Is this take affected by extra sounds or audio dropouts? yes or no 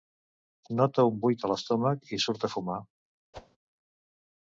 yes